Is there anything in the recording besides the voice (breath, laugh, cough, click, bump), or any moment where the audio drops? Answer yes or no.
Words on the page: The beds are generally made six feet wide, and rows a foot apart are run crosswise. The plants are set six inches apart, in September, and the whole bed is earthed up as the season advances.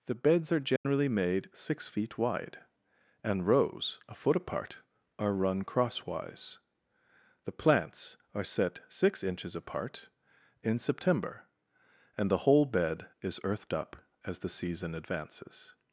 yes